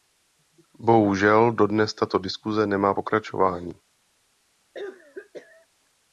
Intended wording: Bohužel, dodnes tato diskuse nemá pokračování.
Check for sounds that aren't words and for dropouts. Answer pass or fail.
fail